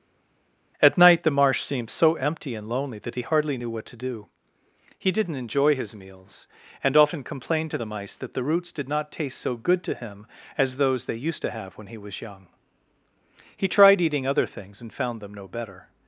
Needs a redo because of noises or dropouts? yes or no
no